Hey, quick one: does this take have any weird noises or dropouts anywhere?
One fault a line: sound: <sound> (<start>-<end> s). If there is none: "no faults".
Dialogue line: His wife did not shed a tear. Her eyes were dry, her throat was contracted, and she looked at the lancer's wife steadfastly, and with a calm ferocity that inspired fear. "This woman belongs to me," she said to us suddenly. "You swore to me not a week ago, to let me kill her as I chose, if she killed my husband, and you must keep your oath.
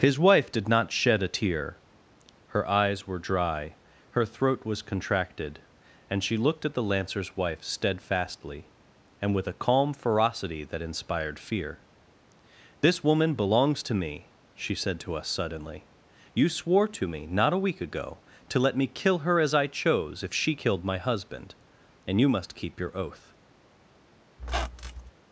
sound: squeak (24.4-25.1 s)